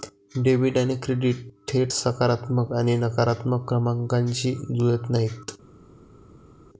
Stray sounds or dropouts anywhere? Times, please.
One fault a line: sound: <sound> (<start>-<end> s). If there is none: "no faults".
no faults